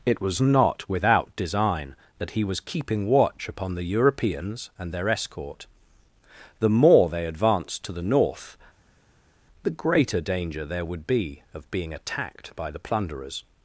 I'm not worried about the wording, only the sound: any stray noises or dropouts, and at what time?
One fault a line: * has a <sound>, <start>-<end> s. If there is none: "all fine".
all fine